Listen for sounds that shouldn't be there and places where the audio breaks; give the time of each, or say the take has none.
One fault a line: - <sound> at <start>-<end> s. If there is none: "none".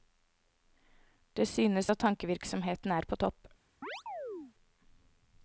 - chirp at 3.8-4.5 s